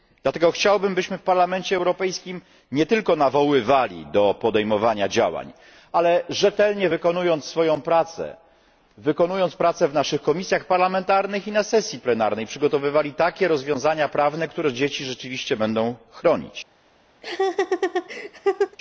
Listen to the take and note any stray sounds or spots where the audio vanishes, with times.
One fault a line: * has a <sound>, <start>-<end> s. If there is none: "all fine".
* has a laugh, 17.2-18.8 s